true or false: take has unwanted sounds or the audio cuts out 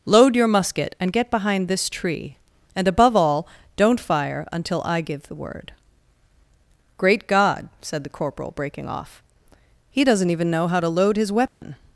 true